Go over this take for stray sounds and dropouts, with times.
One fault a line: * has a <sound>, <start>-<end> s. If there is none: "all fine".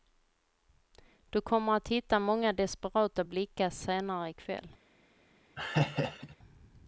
* has a laugh, 5.6-6.4 s